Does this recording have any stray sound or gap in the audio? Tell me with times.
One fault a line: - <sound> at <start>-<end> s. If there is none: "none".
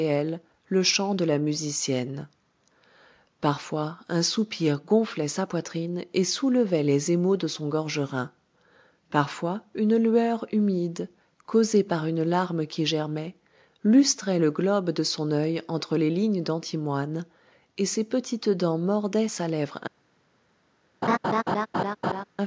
- laugh at 21.0-22.2 s